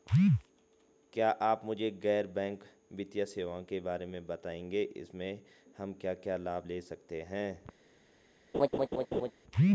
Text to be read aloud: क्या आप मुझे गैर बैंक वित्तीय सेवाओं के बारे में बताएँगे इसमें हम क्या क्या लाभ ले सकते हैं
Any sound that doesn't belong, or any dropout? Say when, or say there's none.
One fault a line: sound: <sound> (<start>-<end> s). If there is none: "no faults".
sound: laugh (8.5-9.3 s)